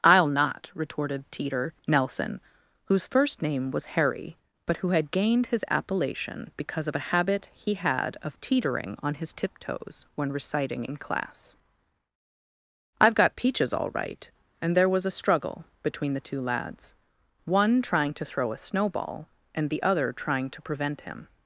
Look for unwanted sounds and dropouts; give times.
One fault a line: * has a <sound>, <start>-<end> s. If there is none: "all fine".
all fine